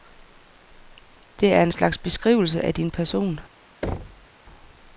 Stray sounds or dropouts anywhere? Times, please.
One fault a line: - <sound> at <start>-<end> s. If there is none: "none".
- thud at 3.8-4.3 s